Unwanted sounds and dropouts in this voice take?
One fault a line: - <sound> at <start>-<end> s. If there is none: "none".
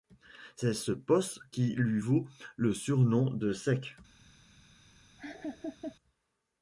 - laugh at 5.2-6.0 s